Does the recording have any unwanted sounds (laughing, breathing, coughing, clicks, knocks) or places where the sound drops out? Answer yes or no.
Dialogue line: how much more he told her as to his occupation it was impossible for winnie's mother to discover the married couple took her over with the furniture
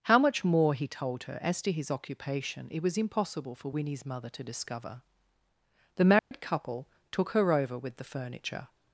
yes